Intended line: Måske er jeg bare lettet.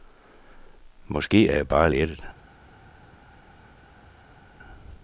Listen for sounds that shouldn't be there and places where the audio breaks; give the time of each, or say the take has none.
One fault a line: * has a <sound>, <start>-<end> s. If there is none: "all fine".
all fine